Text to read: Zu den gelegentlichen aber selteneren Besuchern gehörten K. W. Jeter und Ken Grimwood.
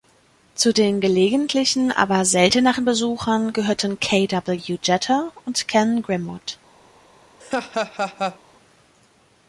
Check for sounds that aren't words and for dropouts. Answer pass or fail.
fail